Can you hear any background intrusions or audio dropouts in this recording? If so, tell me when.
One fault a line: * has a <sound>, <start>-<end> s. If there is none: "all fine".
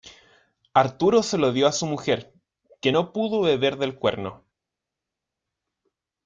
all fine